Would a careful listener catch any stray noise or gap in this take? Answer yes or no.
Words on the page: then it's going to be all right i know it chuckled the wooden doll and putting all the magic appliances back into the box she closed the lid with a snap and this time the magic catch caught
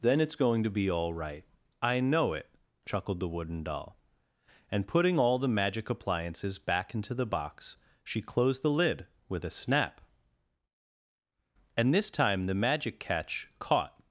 no